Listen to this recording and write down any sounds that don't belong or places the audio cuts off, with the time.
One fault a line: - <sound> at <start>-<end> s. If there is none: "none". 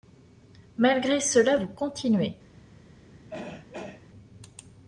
- throat clearing at 3.3-4.1 s